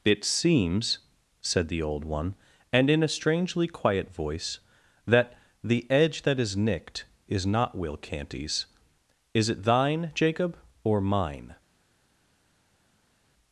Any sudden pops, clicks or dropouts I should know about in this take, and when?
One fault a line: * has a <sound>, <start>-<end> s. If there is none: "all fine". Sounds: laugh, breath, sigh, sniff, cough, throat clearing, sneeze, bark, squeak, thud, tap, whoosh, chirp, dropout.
all fine